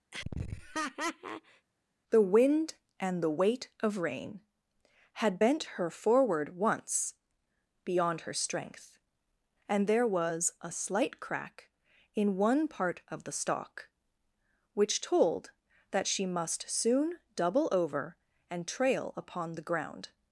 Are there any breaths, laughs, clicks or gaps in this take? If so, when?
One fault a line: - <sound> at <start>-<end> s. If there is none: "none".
- laugh at 0.1-1.7 s